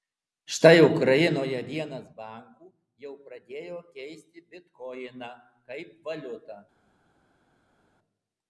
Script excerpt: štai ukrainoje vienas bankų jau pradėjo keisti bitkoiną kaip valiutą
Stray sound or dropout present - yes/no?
no